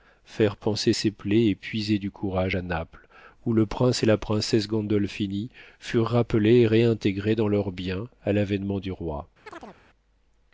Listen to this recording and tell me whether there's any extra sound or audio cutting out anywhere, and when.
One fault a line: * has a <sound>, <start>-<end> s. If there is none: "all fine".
* has a chirp, 9.5-9.8 s